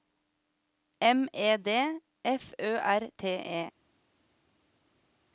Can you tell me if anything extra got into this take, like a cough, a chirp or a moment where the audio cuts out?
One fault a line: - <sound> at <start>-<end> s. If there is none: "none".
none